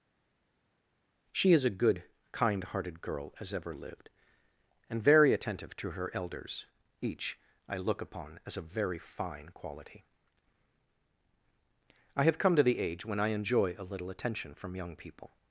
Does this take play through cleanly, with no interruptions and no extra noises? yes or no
yes